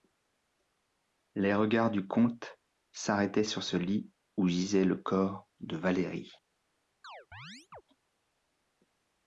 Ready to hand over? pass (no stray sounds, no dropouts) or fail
fail